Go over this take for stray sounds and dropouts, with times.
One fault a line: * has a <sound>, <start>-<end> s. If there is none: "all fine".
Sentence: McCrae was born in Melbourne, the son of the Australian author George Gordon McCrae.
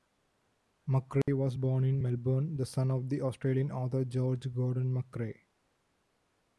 * has a dropout, 1.2-1.3 s